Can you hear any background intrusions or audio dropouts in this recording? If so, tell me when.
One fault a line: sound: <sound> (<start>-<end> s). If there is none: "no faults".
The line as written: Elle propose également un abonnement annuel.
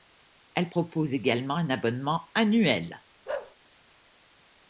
sound: bark (3.3-3.6 s)